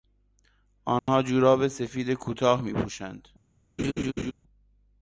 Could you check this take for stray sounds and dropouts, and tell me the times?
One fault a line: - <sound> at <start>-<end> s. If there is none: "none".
- dropout at 1.0-1.1 s
- laugh at 3.8-4.3 s